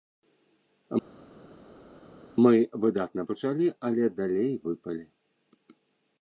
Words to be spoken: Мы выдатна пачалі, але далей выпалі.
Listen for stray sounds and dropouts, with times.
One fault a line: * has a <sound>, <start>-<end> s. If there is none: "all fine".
all fine